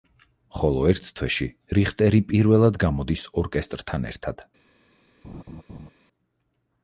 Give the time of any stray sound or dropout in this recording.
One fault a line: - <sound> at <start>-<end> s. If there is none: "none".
- laugh at 5.2-5.9 s